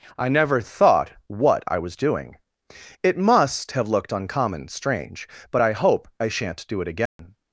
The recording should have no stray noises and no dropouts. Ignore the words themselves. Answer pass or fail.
fail